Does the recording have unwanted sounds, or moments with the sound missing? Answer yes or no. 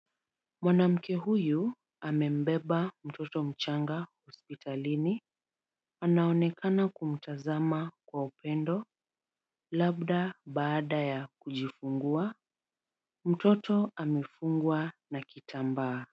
no